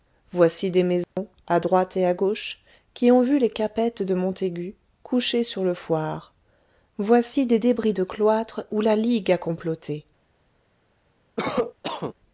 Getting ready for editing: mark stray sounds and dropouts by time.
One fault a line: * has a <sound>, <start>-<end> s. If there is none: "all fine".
* has a dropout, 1.0-1.2 s
* has a cough, 11.4-12.1 s